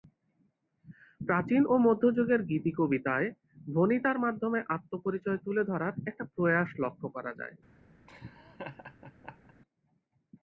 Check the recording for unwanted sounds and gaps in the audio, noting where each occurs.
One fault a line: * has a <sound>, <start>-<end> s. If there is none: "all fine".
* has a laugh, 8.1-9.5 s